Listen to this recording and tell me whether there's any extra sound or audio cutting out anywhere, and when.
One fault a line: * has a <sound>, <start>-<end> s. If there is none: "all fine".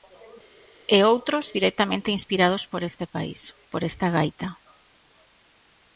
all fine